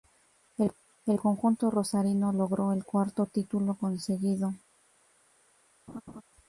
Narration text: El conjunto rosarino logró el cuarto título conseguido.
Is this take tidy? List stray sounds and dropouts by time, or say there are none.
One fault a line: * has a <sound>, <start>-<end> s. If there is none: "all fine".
* has a laugh, 5.9-6.2 s